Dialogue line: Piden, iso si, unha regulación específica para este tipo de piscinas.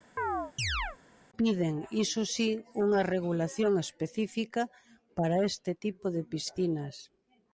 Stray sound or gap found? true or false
true